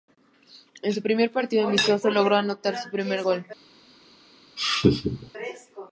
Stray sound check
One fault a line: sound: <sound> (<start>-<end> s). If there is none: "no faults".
sound: laugh (4.6-5.3 s)